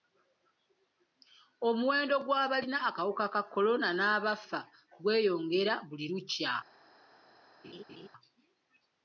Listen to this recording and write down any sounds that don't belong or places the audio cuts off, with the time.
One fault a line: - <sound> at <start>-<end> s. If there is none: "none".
- laugh at 7.6-8.1 s